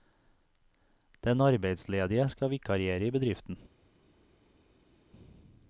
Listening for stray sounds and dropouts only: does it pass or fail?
pass